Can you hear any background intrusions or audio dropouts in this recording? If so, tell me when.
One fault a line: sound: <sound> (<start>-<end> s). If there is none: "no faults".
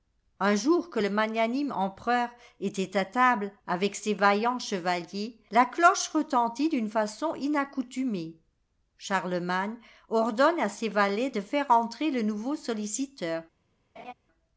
sound: laugh (14.0-14.1 s)